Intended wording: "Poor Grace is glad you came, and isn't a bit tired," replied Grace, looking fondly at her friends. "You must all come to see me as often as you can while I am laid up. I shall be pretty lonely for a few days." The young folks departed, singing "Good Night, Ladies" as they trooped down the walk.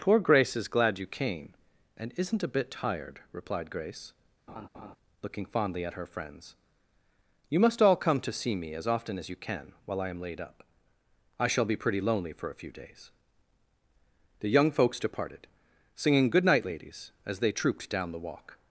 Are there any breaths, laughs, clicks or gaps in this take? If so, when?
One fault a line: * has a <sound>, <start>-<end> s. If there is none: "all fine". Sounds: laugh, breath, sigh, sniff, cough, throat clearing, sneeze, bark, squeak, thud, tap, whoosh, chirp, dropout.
* has a laugh, 4.5-5.0 s